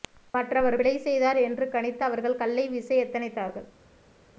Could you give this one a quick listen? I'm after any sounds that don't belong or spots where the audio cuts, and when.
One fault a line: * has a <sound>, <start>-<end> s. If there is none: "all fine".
all fine